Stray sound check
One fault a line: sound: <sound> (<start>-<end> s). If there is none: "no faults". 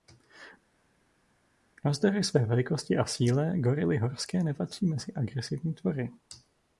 no faults